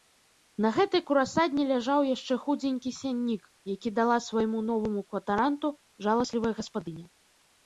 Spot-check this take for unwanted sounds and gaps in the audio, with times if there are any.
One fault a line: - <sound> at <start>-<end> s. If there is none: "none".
none